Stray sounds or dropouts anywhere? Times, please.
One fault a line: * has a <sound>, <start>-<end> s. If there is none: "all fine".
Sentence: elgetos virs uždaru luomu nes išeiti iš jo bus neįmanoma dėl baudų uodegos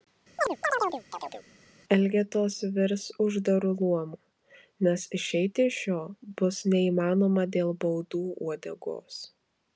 * has a chirp, 0.4-1.5 s